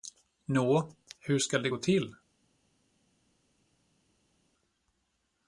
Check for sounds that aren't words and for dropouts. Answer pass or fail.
pass